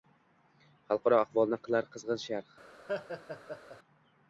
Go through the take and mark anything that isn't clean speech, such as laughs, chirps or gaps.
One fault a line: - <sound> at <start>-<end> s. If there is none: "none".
- laugh at 2.9-3.8 s